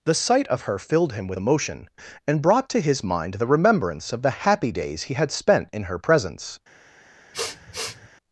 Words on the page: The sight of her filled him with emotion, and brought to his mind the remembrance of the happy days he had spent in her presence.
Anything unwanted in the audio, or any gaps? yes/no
yes